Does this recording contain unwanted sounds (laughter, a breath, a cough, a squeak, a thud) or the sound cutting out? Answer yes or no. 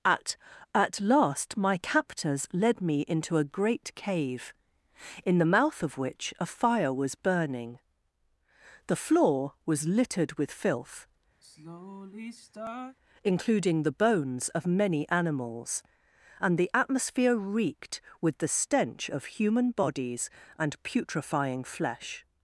yes